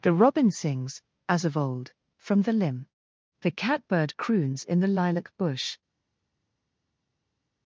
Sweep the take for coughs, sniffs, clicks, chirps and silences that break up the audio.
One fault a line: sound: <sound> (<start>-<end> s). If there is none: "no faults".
no faults